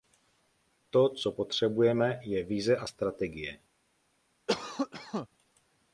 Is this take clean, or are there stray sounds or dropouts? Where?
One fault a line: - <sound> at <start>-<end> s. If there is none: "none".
- cough at 4.5-5.3 s